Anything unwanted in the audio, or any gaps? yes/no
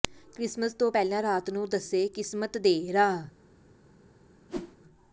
yes